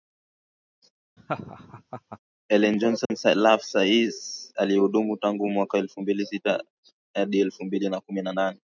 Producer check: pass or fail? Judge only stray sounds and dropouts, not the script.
fail